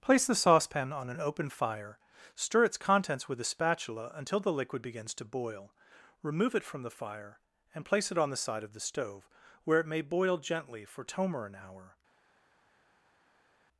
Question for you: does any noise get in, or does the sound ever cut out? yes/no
no